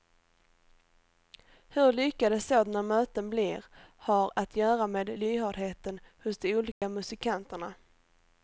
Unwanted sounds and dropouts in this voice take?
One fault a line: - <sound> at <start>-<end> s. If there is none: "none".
- dropout at 6.7-6.8 s